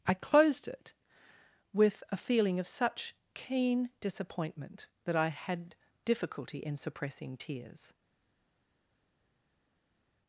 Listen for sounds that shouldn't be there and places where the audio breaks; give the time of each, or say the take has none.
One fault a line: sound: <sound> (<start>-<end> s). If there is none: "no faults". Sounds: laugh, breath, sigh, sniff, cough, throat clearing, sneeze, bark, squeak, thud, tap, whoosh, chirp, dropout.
no faults